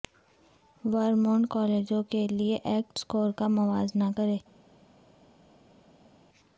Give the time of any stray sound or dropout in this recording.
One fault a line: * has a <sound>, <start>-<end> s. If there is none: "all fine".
all fine